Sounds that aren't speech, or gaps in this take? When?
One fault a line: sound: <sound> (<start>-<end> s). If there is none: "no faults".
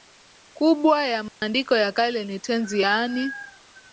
sound: dropout (1.3-1.4 s)